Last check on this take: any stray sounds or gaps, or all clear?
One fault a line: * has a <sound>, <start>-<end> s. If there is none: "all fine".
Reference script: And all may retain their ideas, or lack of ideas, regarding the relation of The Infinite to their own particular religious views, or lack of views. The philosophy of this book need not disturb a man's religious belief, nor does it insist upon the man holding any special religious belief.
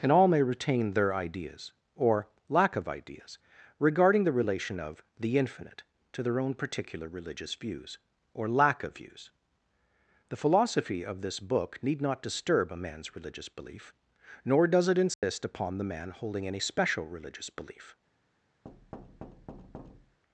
* has a dropout, 15.1-15.2 s
* has a thud, 18.6-20.2 s